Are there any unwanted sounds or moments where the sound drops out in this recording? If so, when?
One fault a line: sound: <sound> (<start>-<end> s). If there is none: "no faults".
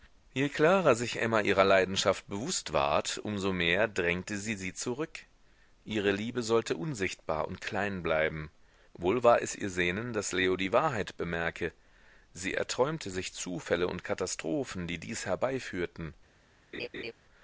sound: laugh (16.7-17.1 s)